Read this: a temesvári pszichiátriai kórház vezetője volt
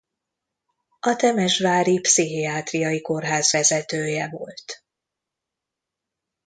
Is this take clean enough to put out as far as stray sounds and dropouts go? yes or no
yes